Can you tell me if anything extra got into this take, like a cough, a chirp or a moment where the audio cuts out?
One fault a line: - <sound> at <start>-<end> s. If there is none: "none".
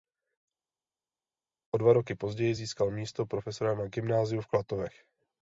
none